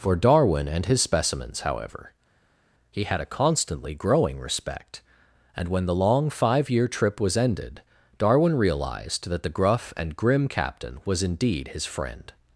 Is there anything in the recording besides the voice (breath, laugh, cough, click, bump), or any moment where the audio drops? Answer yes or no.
no